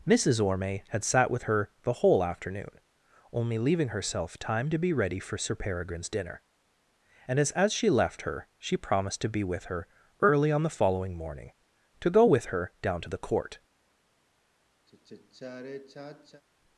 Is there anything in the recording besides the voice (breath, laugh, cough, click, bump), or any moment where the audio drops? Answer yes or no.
yes